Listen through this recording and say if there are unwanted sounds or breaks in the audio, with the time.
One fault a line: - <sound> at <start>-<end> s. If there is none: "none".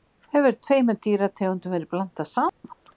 - dropout at 2.5-2.6 s